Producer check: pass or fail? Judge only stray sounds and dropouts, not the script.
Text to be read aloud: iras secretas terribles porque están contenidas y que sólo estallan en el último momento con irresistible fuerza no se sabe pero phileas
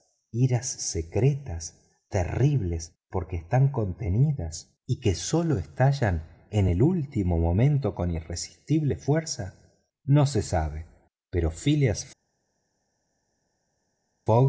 pass